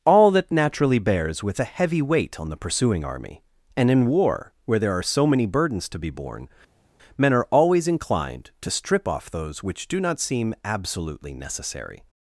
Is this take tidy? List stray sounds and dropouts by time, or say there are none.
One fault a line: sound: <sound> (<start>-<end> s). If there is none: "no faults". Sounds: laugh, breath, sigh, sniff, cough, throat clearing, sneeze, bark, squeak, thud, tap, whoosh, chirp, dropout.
no faults